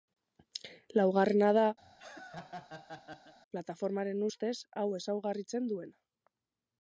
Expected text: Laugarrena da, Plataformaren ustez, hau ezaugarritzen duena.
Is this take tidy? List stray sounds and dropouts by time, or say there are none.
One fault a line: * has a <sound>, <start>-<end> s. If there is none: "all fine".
* has a laugh, 1.8-3.3 s